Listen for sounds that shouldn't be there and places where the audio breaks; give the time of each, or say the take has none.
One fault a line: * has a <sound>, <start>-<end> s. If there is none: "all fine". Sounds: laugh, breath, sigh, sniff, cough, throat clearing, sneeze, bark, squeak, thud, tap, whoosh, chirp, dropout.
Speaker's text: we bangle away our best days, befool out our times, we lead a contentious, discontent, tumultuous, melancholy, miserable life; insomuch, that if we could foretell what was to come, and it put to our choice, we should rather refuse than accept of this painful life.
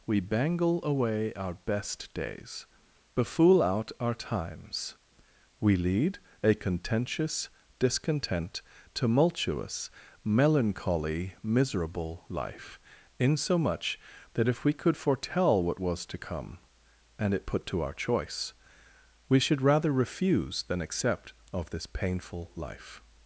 all fine